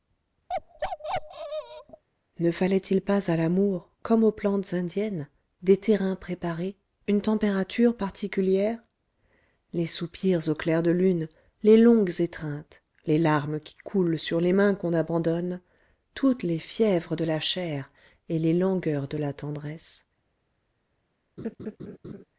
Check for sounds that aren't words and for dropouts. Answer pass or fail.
fail